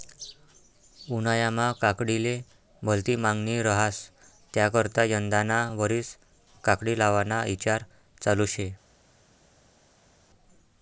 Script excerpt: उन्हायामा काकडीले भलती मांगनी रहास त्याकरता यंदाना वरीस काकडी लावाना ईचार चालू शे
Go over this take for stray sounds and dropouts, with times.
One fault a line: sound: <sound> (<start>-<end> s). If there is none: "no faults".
no faults